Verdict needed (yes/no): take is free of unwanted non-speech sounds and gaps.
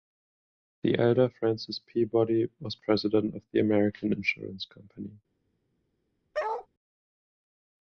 no